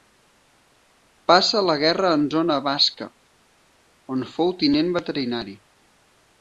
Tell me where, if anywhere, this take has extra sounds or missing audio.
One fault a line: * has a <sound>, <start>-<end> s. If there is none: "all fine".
all fine